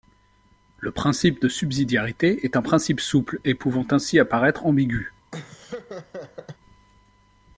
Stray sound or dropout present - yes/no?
yes